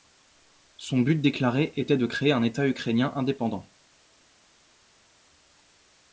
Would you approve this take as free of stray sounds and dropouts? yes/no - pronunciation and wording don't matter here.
yes